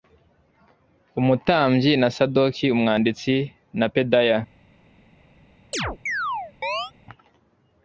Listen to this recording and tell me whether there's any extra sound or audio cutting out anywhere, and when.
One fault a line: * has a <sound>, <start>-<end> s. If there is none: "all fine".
* has a chirp, 5.7-6.9 s